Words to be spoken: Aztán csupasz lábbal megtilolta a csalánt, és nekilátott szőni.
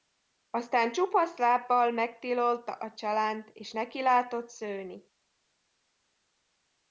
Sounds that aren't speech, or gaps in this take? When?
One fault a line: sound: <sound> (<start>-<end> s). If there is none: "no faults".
no faults